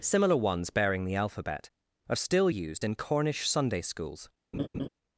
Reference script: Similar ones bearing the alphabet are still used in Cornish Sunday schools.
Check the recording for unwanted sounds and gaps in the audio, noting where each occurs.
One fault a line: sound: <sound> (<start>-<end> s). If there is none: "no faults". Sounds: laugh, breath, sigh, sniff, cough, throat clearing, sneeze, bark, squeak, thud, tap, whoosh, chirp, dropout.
sound: laugh (4.5-4.9 s)